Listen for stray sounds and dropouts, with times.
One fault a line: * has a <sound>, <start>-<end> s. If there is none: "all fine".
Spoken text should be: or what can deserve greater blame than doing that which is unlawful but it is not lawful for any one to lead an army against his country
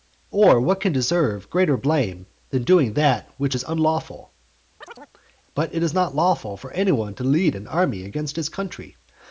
* has a chirp, 4.8-5.1 s